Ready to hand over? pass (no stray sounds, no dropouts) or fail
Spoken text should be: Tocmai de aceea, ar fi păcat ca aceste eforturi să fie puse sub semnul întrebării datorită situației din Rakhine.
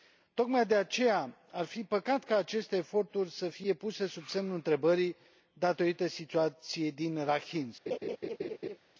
fail